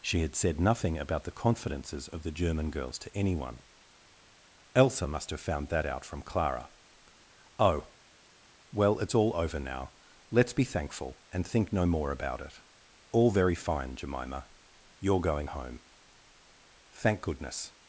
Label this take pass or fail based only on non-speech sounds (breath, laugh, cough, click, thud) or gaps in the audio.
pass